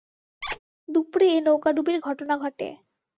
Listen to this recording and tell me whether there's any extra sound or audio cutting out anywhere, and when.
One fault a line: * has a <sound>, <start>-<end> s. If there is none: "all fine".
* has a squeak, 0.4-0.6 s